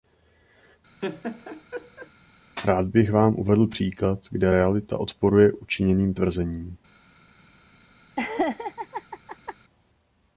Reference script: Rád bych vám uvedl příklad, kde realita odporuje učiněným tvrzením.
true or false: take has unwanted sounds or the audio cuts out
true